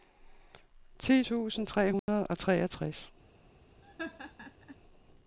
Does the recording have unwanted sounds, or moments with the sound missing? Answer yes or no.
yes